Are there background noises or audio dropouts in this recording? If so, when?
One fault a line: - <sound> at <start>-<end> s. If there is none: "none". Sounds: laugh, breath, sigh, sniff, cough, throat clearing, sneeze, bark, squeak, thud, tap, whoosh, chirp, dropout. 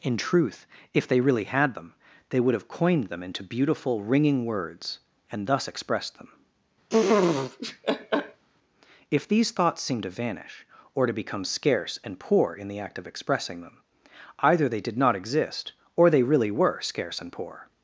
- laugh at 6.9-8.4 s